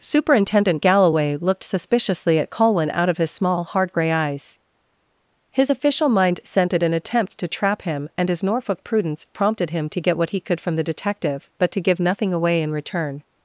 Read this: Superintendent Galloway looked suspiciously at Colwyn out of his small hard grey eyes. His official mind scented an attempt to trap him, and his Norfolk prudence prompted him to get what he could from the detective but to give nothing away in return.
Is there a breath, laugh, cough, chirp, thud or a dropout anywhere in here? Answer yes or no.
no